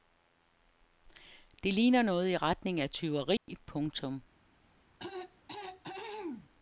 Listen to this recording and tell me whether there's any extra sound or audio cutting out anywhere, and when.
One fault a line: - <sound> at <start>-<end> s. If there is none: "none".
- dropout at 3.4-3.5 s
- throat clearing at 5.0-6.5 s